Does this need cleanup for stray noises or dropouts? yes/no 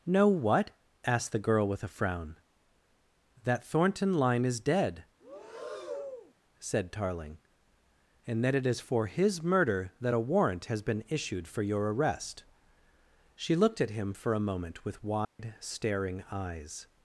yes